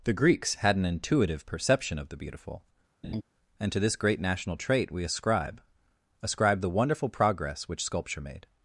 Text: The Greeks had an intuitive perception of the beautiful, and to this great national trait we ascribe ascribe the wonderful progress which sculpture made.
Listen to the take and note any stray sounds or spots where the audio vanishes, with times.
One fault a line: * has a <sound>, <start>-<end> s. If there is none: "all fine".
* has a laugh, 3.0-3.2 s